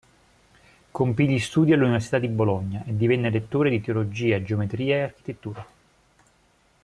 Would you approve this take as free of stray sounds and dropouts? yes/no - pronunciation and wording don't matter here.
yes